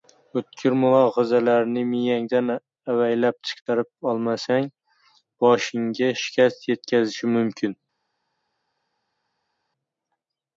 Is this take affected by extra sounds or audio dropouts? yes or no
no